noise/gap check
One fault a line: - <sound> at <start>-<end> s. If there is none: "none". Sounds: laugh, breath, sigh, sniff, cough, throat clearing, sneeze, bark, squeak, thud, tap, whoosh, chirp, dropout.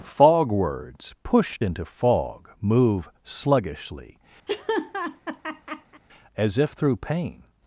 - laugh at 4.5-6.0 s